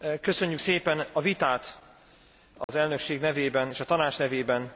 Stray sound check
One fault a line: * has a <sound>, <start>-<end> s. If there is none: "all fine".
* has a dropout, 2.6-2.7 s